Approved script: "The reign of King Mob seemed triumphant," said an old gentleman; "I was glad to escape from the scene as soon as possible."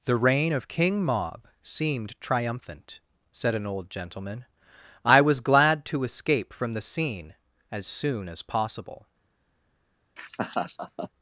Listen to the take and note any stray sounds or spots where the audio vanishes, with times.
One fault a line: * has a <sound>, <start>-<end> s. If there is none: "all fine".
* has a laugh, 10.2-11.1 s